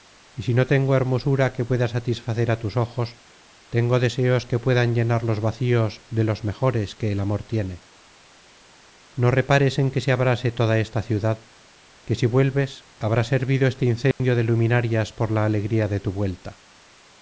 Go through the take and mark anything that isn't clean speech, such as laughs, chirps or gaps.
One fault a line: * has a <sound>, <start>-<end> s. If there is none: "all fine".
* has a dropout, 14.1-14.2 s